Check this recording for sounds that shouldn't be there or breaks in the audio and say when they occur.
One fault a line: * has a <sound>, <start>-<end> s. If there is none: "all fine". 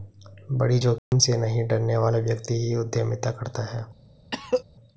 * has a dropout, 1.0-1.1 s
* has a cough, 4.3-4.6 s